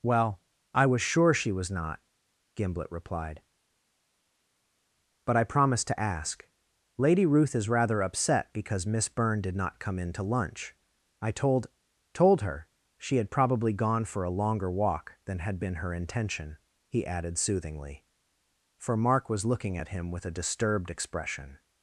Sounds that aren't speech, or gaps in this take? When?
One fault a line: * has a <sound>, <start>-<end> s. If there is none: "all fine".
all fine